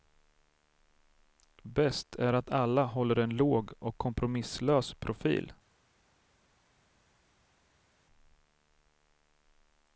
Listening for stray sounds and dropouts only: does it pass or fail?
pass